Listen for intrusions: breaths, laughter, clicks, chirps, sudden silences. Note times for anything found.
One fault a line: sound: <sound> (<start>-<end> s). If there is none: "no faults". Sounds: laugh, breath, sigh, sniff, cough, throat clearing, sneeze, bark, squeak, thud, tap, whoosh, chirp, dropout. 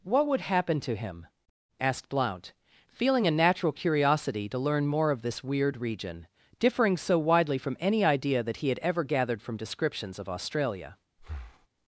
sound: breath (11.2-11.7 s)